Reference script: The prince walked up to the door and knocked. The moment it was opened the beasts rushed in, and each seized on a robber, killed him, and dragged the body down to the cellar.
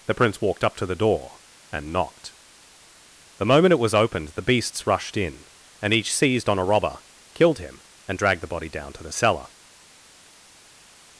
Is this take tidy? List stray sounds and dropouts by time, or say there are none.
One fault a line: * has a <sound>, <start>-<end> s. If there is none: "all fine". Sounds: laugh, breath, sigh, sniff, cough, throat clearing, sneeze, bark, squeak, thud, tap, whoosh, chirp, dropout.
all fine